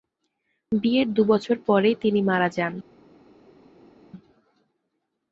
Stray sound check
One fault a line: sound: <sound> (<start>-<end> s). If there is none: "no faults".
no faults